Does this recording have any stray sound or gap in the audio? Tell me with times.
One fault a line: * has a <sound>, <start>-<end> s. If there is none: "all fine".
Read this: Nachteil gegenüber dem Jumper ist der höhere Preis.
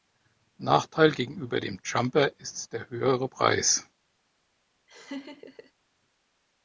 * has a laugh, 4.9-5.7 s